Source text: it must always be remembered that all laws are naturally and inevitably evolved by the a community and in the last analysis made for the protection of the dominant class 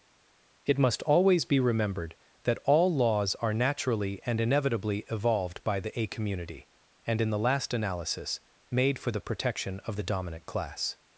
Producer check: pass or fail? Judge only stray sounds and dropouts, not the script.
pass